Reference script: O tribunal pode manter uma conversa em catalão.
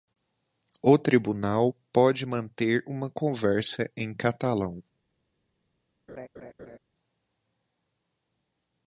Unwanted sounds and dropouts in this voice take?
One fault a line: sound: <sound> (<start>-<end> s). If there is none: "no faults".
sound: laugh (6.1-6.8 s)